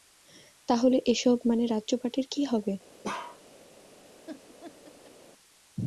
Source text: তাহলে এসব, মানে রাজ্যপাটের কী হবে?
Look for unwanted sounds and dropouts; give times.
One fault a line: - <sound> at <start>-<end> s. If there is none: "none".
- bark at 3.0-3.4 s
- laugh at 4.3-5.1 s